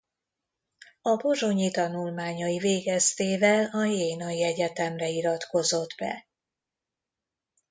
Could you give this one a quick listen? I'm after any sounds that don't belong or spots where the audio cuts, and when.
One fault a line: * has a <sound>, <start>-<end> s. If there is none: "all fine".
all fine